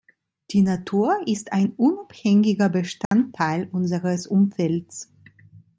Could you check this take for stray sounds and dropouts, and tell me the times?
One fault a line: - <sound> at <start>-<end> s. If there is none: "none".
- dropout at 3.1-3.1 s